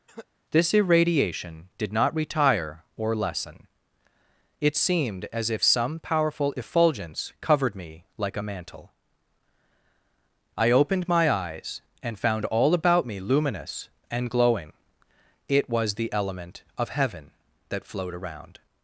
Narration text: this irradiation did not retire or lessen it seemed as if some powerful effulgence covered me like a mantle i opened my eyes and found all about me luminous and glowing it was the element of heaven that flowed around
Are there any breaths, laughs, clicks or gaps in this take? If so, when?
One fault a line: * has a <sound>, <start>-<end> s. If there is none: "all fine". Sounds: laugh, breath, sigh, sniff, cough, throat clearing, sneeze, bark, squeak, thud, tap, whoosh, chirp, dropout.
* has a cough, 0.1-0.3 s